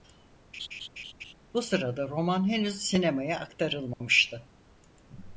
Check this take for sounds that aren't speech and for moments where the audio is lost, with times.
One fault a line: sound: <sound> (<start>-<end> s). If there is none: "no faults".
sound: laugh (0.5-1.3 s)
sound: dropout (3.9-4.0 s)